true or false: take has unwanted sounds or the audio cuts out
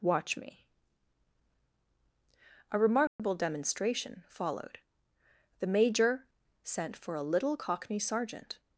true